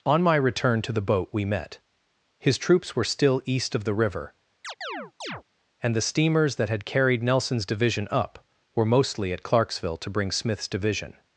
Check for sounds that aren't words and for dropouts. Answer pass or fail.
fail